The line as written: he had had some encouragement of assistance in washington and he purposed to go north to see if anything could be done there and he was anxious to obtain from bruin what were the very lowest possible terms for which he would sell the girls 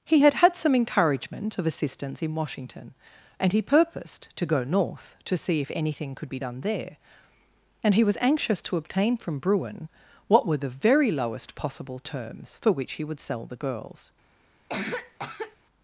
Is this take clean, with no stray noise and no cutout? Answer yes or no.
no